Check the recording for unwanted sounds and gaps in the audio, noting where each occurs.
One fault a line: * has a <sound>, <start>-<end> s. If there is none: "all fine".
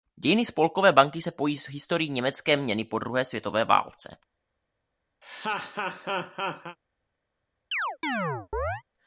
* has a laugh, 5.2-6.8 s
* has a chirp, 7.7-8.8 s